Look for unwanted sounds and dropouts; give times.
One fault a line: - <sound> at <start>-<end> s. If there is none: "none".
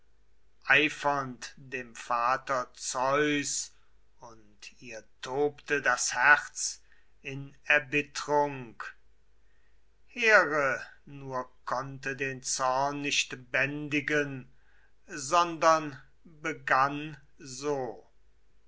none